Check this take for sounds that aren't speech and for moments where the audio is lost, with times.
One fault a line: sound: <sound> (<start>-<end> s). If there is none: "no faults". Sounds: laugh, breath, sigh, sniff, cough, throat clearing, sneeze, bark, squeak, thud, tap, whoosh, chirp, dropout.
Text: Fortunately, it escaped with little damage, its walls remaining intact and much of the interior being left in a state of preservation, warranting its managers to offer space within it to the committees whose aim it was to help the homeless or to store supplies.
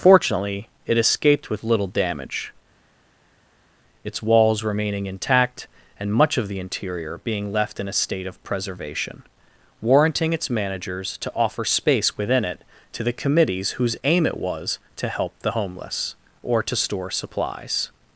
no faults